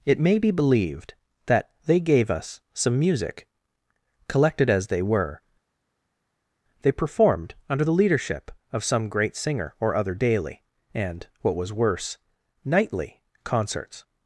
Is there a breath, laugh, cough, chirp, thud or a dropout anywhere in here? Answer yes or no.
no